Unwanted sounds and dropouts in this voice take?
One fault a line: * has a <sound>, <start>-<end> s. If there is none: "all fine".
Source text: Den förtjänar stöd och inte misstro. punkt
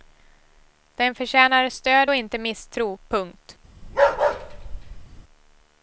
* has a bark, 3.8-5.2 s